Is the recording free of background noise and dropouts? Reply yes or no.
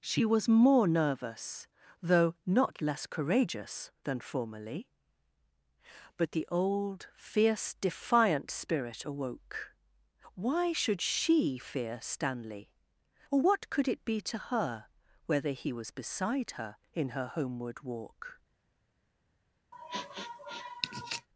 no